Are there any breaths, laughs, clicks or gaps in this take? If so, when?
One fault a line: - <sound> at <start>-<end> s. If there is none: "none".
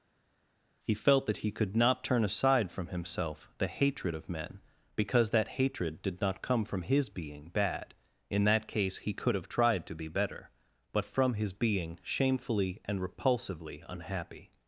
none